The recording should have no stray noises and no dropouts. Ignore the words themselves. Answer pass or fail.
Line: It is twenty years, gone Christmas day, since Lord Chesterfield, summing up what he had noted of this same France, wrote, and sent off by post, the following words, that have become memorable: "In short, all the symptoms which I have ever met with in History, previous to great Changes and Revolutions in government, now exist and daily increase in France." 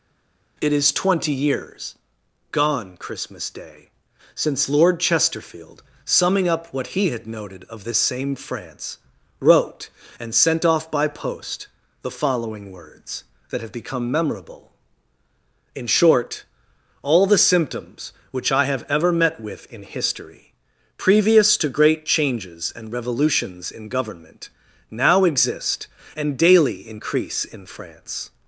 pass